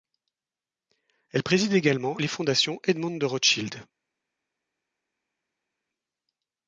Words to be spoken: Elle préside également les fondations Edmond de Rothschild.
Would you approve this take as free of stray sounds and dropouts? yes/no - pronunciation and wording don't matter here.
yes